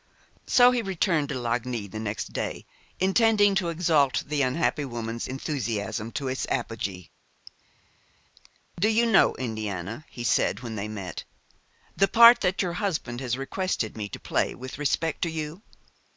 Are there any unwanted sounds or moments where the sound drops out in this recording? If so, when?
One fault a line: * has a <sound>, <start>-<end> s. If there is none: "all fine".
all fine